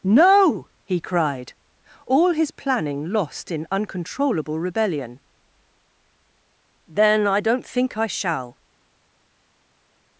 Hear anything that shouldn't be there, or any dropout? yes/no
no